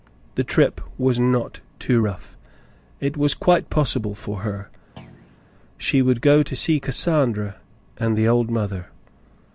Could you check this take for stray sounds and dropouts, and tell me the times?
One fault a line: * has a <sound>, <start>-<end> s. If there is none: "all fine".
* has a thud, 5.0-5.4 s